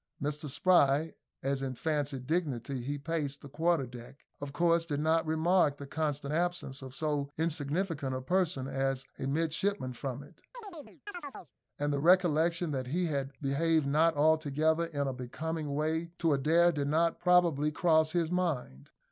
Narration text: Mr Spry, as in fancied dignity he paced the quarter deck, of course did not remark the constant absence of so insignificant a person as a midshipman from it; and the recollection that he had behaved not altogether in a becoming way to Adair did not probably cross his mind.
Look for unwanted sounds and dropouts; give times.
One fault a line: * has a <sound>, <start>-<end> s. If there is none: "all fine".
* has a chirp, 10.5-11.5 s